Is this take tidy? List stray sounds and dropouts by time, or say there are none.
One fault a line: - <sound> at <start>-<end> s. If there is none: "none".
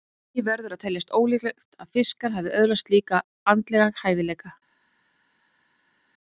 none